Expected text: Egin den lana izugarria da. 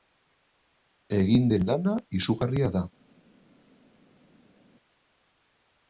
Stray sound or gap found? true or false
false